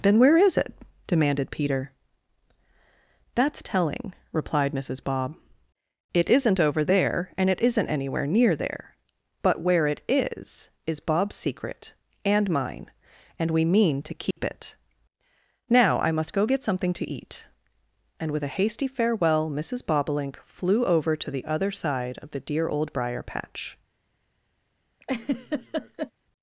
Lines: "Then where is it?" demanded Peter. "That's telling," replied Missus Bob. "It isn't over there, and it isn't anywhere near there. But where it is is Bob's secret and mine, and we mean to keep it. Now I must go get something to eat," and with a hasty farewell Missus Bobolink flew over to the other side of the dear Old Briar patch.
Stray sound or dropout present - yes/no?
yes